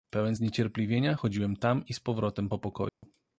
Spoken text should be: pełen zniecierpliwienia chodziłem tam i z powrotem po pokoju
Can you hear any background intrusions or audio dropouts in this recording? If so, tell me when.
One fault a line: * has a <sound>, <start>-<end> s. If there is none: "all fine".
* has a dropout, 2.9-3.0 s